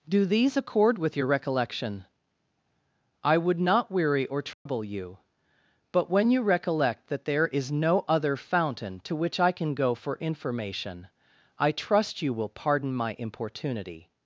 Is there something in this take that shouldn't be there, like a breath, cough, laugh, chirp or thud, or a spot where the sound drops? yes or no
yes